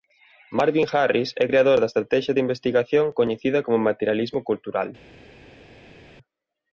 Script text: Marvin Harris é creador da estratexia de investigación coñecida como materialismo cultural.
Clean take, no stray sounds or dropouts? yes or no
yes